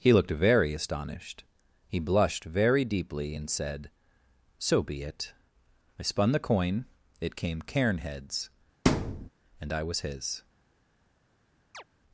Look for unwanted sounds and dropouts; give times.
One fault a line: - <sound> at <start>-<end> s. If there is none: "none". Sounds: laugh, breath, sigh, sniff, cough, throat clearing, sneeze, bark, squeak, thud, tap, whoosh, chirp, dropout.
- thud at 8.9-9.3 s
- chirp at 11.7-11.8 s